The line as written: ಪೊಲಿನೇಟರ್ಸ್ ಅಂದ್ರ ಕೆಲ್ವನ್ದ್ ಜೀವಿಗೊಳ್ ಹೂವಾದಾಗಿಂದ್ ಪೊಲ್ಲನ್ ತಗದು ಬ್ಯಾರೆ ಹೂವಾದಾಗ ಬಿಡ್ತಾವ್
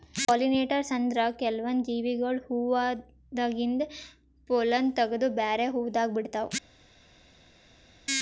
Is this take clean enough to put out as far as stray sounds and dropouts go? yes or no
yes